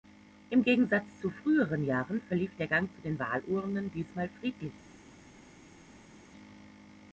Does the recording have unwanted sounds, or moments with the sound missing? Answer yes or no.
no